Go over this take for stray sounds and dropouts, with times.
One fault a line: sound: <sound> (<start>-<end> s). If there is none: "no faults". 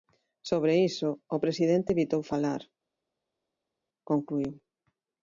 no faults